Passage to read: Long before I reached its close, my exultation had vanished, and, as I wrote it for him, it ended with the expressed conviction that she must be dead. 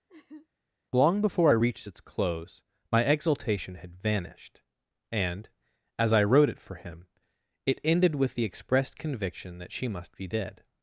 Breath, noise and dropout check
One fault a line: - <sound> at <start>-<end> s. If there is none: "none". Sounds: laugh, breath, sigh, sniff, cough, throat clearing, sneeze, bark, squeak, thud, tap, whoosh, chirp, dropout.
- laugh at 0.1-0.5 s